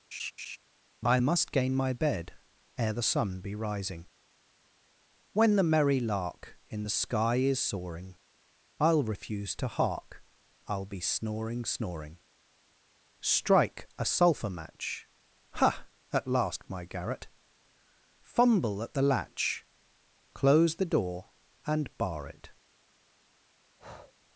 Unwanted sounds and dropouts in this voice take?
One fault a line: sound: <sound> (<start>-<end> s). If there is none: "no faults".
sound: laugh (0.1-0.6 s)
sound: breath (23.8-24.1 s)